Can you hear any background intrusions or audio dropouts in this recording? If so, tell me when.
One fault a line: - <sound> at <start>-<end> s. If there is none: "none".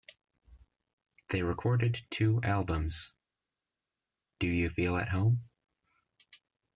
none